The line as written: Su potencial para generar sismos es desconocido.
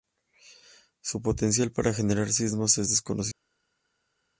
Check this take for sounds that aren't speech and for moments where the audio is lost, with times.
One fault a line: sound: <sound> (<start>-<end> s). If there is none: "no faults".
no faults